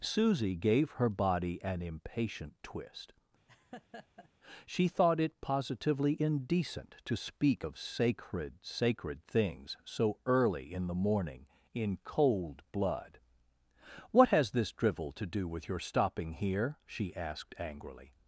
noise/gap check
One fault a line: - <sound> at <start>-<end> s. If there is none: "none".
- laugh at 3.5-4.3 s